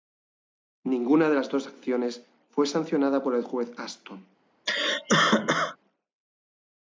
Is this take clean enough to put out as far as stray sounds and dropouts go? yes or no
no